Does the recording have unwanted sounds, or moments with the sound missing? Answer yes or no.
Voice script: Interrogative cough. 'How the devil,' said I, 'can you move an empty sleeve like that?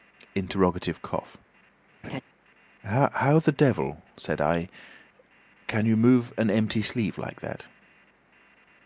yes